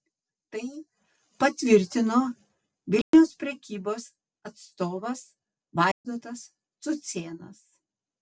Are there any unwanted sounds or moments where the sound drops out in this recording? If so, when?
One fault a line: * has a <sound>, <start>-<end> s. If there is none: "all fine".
* has a dropout, 3.0-3.1 s
* has a dropout, 5.9-6.0 s